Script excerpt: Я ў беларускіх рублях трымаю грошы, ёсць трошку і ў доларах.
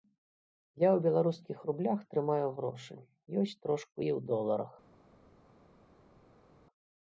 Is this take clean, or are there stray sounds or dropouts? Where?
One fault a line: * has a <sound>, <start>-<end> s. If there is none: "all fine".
all fine